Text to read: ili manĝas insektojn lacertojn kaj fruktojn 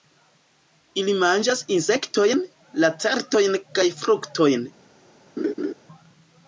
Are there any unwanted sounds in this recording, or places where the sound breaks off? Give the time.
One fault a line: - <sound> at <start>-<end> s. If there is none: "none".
- laugh at 5.4-5.7 s